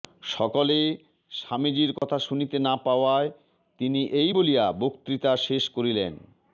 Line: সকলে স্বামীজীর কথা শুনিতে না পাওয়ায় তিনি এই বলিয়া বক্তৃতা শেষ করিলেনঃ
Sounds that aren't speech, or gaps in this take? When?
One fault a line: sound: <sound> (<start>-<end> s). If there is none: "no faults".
sound: dropout (2.0-2.0 s)